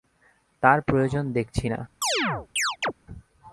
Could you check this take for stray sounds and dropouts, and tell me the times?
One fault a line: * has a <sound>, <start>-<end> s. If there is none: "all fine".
* has a chirp, 2.0-2.9 s